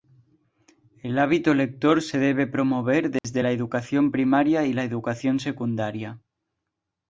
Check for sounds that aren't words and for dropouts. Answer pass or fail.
fail